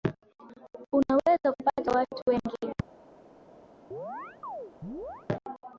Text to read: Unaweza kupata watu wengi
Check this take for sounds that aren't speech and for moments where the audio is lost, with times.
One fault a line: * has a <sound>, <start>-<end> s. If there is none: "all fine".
* has a chirp, 3.9-5.3 s